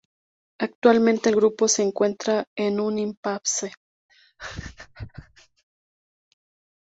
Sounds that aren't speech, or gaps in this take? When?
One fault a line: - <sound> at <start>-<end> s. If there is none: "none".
- laugh at 4.1-5.6 s